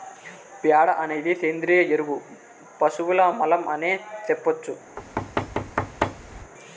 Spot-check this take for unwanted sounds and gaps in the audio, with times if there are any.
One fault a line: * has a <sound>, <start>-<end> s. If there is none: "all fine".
* has a thud, 5.0-6.5 s